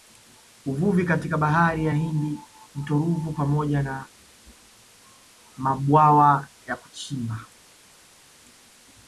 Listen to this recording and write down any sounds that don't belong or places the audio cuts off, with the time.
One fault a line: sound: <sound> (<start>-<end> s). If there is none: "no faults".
no faults